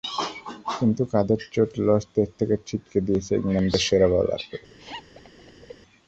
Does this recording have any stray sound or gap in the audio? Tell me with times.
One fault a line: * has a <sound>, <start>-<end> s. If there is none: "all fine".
* has a laugh, 4.8-5.8 s